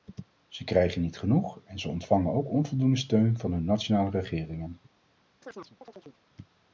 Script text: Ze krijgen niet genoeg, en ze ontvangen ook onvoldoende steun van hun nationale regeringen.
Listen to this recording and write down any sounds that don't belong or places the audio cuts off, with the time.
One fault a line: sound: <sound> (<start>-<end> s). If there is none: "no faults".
sound: chirp (5.4-6.2 s)